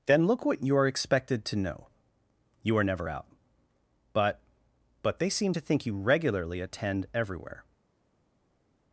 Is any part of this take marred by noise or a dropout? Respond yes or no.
no